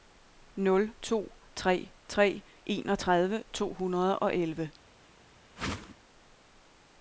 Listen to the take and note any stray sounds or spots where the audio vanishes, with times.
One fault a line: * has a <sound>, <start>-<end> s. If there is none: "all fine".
* has a whoosh, 5.6-6.0 s